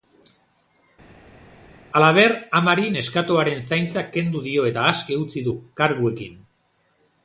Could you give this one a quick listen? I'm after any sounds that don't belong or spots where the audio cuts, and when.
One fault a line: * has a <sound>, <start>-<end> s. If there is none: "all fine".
all fine